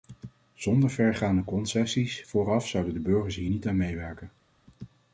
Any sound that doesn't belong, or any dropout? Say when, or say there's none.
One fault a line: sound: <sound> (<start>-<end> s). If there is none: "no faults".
no faults